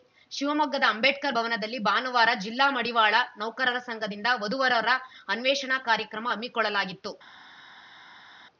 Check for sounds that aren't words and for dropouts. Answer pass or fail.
pass